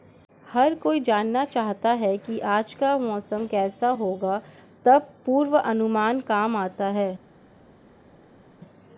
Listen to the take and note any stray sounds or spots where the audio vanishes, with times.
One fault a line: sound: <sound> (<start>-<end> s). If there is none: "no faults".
no faults